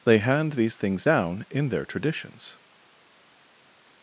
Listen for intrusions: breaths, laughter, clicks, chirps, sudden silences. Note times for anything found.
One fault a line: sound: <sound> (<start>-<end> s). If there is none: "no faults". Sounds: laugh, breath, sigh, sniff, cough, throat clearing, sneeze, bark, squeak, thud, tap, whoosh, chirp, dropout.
no faults